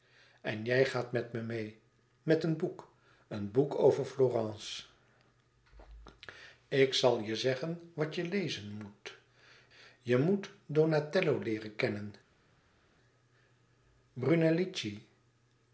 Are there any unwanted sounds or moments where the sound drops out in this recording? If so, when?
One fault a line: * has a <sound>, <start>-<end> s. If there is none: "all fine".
all fine